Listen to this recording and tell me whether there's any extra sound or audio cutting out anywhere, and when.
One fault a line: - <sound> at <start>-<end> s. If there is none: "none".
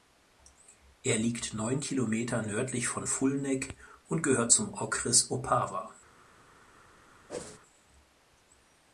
- whoosh at 7.3-7.6 s